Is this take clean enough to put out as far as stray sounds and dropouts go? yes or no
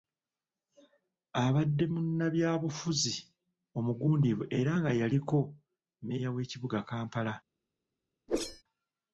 no